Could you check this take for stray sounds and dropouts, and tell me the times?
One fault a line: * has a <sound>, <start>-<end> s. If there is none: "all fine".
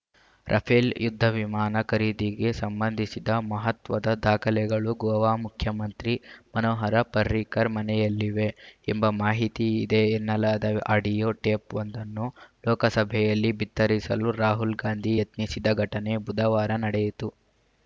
all fine